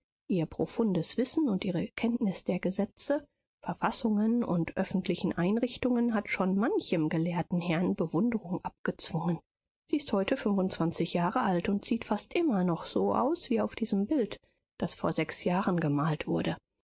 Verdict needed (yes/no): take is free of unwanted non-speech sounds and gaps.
yes